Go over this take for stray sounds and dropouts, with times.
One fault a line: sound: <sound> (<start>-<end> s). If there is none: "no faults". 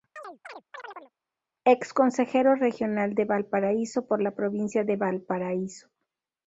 sound: chirp (0.2-1.1 s)